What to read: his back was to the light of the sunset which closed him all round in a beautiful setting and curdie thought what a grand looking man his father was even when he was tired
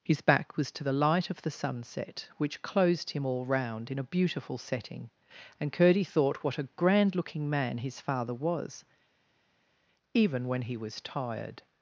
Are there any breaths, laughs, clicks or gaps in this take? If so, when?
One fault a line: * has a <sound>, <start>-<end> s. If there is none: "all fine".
all fine